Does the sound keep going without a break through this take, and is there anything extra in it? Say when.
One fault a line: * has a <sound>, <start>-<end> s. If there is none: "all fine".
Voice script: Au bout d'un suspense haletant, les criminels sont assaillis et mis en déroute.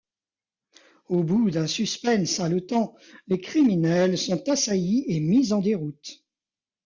all fine